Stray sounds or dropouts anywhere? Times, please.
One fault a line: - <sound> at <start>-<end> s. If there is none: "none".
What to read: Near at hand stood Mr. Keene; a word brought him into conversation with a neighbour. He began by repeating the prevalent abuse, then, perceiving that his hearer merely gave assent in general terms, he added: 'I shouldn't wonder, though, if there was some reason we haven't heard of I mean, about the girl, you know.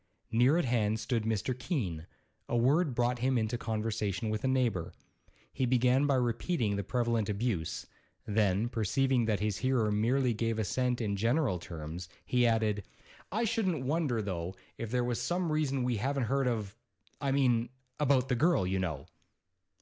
none